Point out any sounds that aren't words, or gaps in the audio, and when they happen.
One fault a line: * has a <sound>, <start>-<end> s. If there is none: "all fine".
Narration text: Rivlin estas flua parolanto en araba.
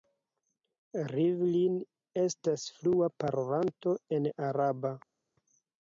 all fine